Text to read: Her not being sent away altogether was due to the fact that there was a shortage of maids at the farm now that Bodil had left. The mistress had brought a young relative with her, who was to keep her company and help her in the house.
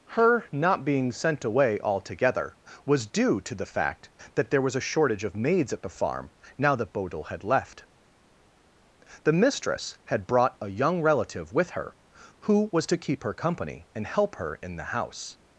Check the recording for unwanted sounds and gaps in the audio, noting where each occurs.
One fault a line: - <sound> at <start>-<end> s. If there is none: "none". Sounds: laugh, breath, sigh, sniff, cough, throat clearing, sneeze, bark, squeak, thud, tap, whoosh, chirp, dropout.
none